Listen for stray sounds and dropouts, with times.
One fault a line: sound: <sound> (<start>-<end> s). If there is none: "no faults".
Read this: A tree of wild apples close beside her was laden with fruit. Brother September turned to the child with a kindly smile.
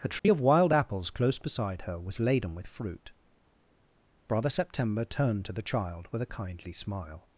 sound: dropout (0.2-0.2 s)